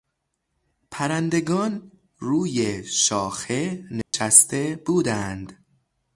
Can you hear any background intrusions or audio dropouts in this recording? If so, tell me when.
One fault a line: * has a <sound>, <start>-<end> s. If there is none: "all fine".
* has a dropout, 4.0-4.1 s